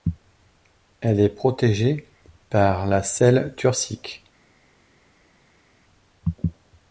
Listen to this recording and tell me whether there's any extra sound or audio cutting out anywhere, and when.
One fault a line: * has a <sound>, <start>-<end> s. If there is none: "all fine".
all fine